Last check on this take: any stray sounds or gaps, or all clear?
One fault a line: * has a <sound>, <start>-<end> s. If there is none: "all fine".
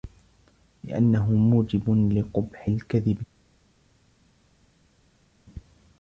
all fine